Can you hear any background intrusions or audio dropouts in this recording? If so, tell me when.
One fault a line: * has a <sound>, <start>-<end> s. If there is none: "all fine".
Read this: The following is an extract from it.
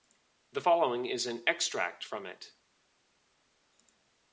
all fine